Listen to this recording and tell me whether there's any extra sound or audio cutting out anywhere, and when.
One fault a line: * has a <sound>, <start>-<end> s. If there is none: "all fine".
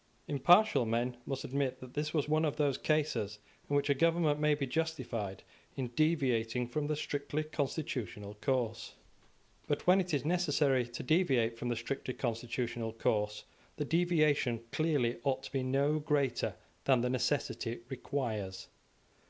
all fine